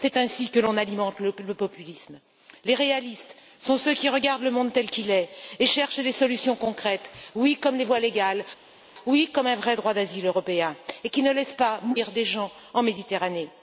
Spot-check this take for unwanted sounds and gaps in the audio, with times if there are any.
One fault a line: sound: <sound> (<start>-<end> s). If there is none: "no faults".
no faults